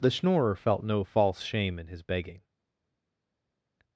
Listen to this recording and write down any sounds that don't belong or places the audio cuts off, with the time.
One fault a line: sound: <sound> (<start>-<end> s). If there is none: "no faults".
no faults